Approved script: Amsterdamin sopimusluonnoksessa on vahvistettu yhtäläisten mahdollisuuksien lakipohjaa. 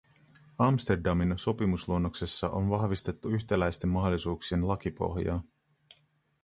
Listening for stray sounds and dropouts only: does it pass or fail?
pass